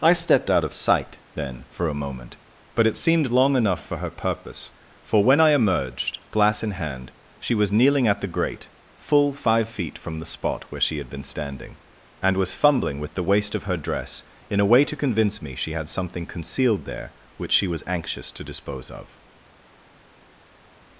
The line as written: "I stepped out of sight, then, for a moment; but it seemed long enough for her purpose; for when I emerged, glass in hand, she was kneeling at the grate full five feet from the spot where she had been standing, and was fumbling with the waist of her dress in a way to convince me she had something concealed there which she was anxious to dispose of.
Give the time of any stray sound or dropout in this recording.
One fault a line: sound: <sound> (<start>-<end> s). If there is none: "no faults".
no faults